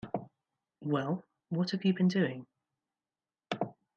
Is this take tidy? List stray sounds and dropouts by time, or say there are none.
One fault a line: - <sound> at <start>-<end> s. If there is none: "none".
none